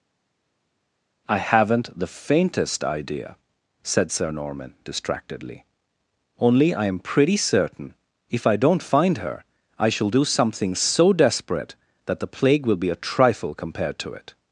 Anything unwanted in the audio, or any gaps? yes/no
no